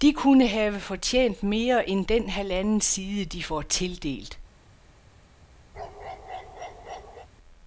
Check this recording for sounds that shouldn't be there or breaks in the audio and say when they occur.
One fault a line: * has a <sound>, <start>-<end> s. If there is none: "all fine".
* has a bark, 5.7-7.3 s